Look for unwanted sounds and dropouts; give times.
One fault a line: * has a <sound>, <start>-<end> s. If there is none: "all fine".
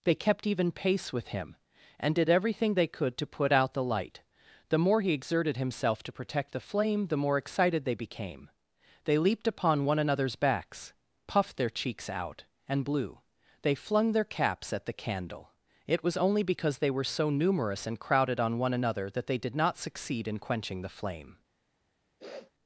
* has a sniff, 22.2-22.5 s